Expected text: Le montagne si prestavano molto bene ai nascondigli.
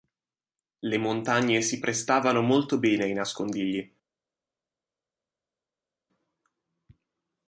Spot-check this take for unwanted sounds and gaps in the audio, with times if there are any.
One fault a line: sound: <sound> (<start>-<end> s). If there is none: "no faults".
no faults